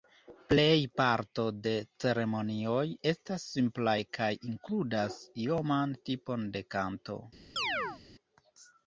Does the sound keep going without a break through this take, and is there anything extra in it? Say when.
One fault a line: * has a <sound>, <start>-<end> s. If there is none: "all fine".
* has a chirp, 7.6-8.0 s